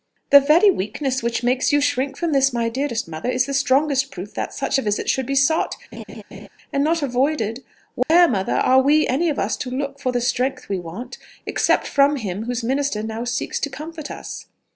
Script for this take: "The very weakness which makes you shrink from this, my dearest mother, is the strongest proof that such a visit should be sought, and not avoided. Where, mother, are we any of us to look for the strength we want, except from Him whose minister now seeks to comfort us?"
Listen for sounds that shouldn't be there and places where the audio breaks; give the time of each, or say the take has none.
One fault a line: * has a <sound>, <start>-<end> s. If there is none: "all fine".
* has a laugh, 5.9-6.5 s
* has a dropout, 8.0-8.1 s